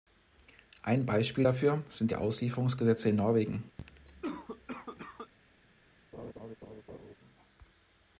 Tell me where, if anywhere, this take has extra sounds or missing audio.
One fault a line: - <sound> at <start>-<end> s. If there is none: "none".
- cough at 3.8-5.3 s
- laugh at 6.1-7.2 s